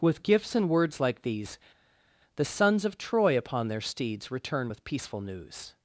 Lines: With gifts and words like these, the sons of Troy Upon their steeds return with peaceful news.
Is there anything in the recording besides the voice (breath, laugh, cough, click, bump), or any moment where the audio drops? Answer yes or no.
no